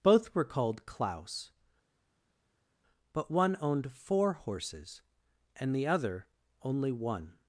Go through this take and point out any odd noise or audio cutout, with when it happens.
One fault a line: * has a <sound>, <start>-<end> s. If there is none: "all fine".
all fine